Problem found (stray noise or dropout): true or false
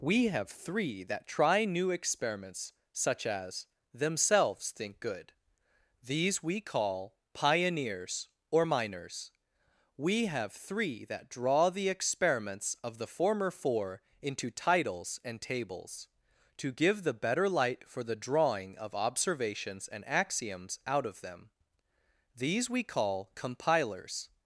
false